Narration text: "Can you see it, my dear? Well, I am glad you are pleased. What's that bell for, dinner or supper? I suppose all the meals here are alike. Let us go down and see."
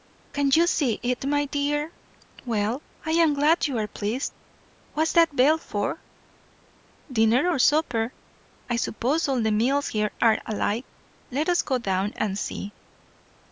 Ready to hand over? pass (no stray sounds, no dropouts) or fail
pass